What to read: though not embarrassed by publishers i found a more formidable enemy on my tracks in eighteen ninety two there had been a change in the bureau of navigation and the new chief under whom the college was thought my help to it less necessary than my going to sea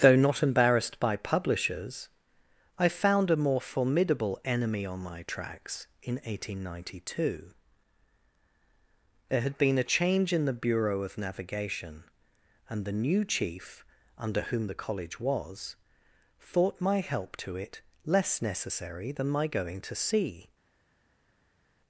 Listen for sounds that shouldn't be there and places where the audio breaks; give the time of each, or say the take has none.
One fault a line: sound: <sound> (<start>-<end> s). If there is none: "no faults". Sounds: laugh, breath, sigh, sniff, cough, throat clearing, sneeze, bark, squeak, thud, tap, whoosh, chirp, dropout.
no faults